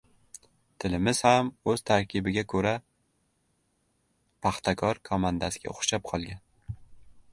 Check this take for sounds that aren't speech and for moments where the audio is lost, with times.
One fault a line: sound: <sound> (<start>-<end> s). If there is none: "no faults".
no faults